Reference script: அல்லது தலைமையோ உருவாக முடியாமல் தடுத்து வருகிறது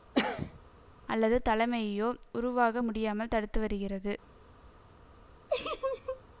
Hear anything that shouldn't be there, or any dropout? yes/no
yes